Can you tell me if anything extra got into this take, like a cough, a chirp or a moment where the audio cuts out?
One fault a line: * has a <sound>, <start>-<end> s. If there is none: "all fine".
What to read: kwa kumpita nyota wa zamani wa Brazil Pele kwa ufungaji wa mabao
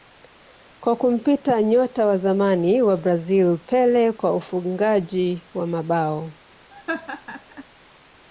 * has a laugh, 6.7-7.6 s